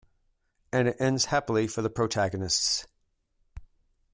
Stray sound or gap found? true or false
false